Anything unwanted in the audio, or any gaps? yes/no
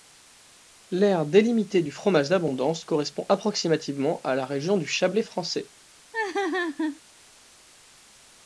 yes